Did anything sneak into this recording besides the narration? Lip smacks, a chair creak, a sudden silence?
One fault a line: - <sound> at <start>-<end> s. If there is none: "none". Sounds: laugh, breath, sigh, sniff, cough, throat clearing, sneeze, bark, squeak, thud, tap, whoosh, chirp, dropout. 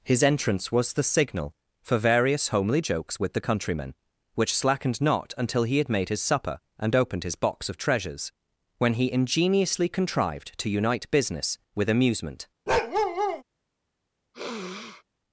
- bark at 12.7-13.4 s
- sniff at 14.3-15.0 s